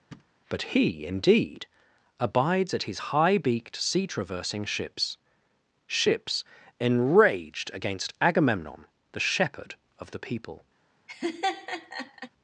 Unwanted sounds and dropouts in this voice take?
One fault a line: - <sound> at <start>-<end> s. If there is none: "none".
- thud at 0.1-0.3 s
- laugh at 11.1-12.3 s